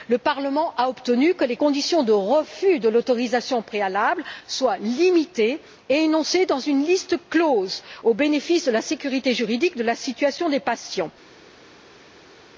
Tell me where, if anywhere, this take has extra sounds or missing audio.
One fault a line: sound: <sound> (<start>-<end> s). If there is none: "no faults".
no faults